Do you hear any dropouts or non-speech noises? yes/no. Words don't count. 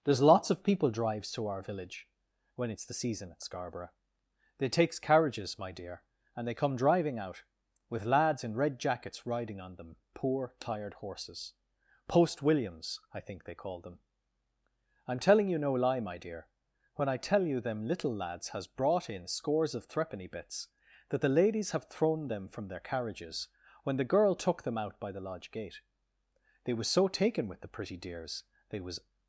no